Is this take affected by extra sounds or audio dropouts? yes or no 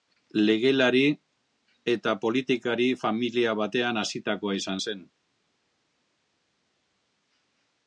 no